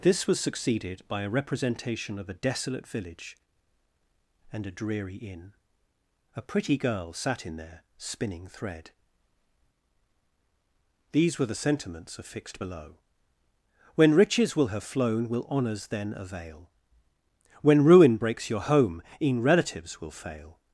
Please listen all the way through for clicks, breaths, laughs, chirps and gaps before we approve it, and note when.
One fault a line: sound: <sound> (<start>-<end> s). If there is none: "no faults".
no faults